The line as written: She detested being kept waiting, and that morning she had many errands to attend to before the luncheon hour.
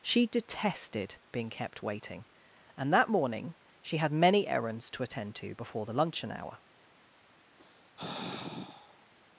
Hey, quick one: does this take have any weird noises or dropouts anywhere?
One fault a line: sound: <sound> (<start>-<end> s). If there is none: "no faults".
sound: sigh (7.6-9.1 s)